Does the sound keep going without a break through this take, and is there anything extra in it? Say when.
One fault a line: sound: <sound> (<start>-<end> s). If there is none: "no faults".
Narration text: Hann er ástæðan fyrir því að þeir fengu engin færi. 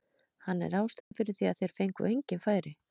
sound: dropout (1.0-1.1 s)